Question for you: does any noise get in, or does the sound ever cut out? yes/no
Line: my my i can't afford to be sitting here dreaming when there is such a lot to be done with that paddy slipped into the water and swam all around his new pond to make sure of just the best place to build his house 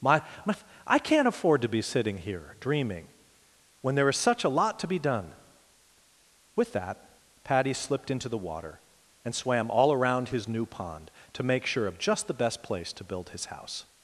no